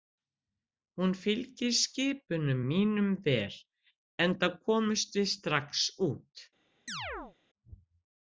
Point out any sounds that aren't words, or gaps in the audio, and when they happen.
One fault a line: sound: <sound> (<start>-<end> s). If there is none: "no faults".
sound: chirp (6.9-7.4 s)